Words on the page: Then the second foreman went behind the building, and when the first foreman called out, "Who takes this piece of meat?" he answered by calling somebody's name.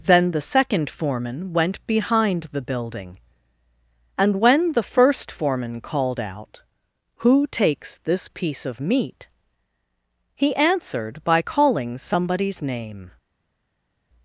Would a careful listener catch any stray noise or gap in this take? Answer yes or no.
no